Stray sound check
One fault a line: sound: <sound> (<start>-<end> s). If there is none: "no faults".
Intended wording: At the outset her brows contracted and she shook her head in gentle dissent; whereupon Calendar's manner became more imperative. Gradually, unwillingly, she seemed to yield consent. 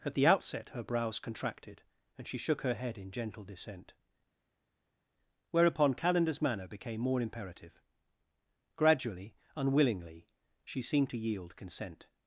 no faults